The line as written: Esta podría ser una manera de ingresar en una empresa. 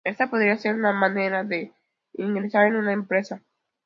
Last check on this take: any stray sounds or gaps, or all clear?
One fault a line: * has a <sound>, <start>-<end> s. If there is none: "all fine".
all fine